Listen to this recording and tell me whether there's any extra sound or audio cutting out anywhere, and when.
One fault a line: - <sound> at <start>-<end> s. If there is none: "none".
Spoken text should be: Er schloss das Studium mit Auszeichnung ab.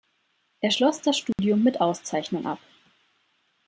- dropout at 1.3-1.4 s